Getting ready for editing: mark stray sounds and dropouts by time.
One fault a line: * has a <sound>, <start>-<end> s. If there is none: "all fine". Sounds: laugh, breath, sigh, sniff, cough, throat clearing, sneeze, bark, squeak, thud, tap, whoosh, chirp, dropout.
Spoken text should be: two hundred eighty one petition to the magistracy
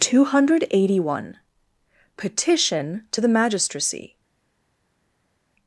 all fine